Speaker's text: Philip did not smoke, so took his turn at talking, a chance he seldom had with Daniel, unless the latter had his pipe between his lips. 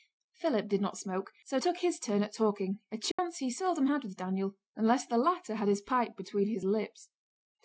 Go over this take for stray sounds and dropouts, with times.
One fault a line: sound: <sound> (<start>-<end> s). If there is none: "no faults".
sound: dropout (3.1-3.2 s)